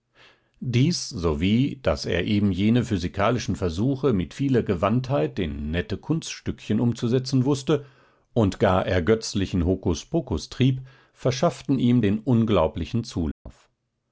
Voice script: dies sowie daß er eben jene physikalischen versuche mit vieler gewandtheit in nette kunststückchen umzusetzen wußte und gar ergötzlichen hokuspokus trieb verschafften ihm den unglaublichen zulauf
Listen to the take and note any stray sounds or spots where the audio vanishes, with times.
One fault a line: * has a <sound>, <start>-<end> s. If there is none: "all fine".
* has a dropout, 13.3-13.5 s